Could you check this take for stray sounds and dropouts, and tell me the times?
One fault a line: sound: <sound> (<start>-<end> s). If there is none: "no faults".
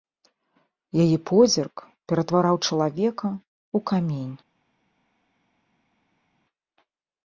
no faults